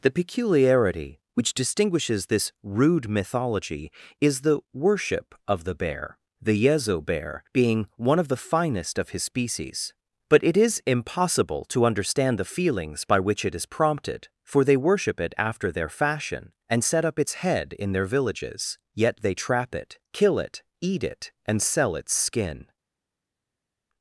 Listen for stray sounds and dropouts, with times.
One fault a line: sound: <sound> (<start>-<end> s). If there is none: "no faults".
no faults